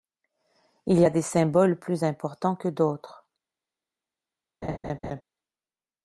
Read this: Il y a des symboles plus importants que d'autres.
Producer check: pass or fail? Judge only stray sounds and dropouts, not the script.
fail